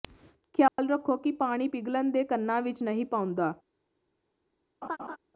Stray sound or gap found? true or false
true